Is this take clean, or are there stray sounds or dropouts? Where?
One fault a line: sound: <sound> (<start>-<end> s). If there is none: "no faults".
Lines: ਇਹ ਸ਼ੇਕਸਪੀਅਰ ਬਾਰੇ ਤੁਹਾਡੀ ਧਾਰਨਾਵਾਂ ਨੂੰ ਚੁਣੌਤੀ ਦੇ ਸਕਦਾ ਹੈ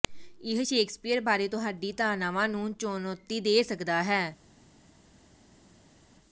no faults